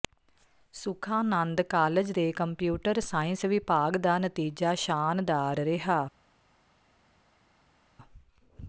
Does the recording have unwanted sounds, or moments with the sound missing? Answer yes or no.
no